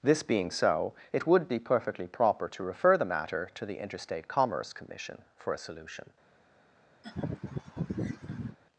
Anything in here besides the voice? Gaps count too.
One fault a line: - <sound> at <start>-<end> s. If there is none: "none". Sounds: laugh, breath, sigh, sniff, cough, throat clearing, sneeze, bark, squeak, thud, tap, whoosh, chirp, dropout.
- laugh at 7.0-8.6 s